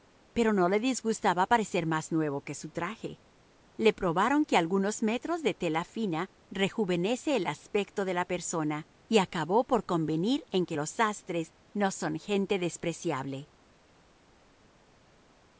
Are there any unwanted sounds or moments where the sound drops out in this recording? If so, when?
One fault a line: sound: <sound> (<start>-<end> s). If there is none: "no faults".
no faults